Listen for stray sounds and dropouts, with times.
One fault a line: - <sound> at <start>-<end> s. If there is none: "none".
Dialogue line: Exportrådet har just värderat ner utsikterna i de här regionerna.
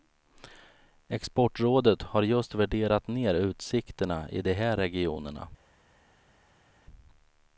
none